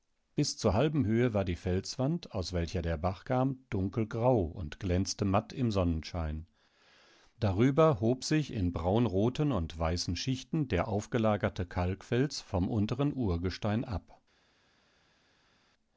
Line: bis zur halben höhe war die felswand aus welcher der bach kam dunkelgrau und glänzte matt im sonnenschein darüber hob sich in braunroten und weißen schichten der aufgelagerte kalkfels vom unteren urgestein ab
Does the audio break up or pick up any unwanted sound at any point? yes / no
no